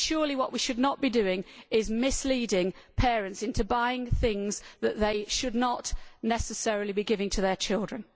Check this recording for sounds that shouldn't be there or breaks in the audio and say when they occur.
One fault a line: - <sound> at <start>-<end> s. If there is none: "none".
none